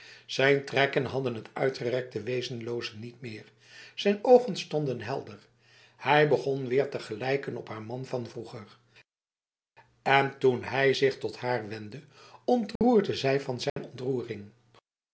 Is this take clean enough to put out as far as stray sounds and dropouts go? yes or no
no